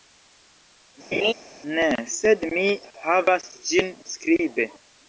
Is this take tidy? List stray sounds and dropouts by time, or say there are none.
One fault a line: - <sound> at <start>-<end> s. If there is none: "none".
- laugh at 1.1-1.3 s